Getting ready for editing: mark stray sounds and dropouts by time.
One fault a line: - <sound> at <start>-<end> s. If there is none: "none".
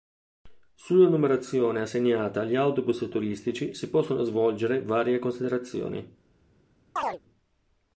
- chirp at 7.0-7.2 s